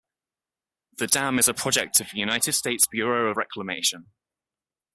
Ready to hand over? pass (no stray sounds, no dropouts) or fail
pass